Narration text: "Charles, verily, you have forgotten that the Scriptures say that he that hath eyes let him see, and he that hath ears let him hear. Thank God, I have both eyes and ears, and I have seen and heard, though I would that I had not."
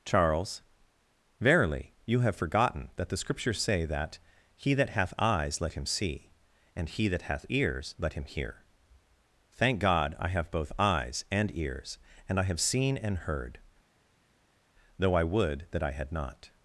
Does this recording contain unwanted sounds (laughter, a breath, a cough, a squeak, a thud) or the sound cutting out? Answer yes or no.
no